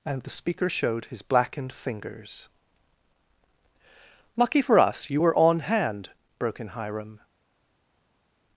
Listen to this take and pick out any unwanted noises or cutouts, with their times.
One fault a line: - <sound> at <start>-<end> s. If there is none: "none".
none